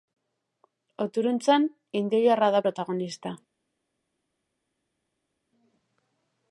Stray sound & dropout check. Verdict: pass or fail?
pass